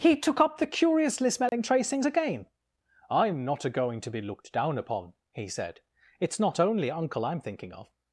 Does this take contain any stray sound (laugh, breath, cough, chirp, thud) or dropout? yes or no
yes